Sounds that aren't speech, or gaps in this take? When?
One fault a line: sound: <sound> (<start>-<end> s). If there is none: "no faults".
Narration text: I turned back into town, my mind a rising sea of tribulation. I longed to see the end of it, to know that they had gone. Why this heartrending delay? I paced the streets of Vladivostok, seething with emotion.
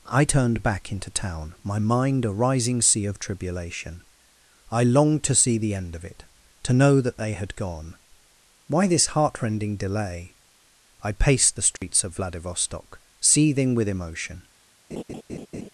sound: dropout (11.8-11.8 s)
sound: laugh (14.9-15.7 s)